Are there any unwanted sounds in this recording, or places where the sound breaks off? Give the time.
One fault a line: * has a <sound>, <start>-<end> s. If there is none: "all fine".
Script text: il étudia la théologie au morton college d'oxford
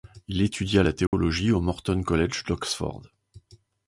* has a dropout, 1.1-1.1 s